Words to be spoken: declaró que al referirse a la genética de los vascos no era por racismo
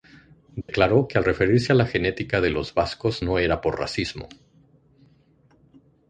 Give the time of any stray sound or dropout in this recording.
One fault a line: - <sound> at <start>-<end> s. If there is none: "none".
- dropout at 0.6-0.7 s